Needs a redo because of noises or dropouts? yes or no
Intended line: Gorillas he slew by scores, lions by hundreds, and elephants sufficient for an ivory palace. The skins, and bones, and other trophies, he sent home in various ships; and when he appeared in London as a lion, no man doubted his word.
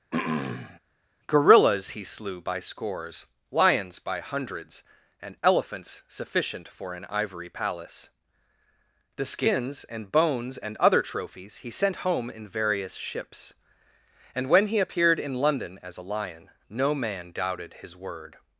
yes